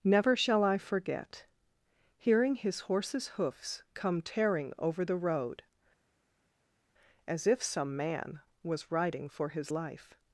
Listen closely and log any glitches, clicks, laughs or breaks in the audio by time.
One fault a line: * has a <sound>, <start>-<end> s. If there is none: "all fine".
all fine